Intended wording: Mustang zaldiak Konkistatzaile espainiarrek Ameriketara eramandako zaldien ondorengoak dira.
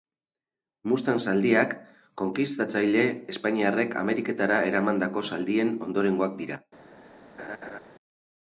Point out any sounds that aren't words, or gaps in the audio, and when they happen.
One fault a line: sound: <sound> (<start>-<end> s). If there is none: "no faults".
sound: laugh (7.4-7.8 s)